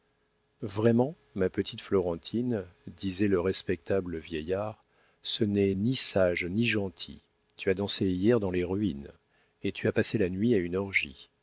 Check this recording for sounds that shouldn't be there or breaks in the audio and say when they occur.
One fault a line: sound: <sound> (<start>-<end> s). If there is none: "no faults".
no faults